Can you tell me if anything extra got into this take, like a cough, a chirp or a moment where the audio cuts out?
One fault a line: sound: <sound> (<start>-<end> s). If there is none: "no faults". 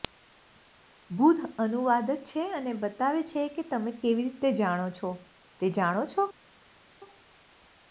no faults